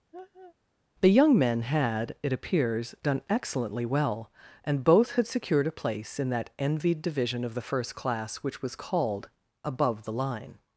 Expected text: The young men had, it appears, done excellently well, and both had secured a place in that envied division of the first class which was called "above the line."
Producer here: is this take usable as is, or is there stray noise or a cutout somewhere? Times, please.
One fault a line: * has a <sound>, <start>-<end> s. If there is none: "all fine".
* has a laugh, 0.1-0.6 s